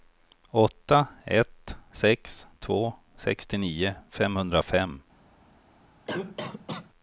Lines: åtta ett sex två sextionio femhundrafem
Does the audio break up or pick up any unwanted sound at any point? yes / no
yes